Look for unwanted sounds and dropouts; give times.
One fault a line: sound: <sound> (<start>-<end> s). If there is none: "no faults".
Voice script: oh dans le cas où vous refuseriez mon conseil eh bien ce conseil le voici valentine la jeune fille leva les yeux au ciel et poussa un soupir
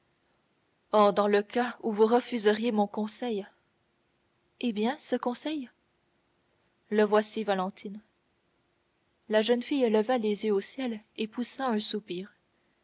no faults